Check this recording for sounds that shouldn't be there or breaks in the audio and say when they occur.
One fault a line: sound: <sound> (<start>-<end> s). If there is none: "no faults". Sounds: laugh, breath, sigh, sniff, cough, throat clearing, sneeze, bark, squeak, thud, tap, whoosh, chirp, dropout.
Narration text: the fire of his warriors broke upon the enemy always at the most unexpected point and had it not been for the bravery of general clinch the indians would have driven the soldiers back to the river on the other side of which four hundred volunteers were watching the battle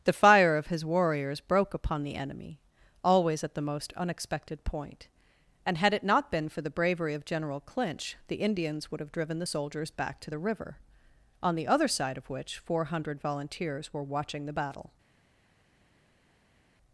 no faults